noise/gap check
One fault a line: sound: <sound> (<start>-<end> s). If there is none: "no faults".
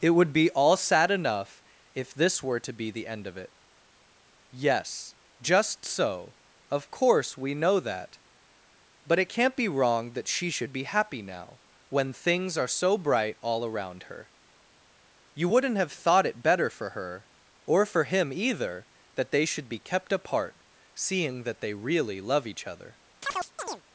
sound: chirp (23.2-23.8 s)